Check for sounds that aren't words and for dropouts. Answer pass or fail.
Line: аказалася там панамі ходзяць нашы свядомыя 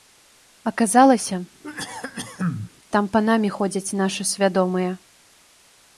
fail